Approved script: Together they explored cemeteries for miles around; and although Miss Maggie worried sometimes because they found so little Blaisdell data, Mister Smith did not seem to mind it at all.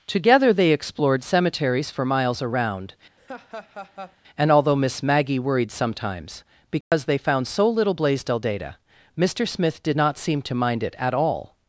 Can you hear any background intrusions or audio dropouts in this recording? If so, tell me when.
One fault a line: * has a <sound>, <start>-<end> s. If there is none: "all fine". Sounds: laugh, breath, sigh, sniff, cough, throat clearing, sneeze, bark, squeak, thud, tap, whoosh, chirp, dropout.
* has a laugh, 3.2-4.2 s
* has a dropout, 6.8-6.9 s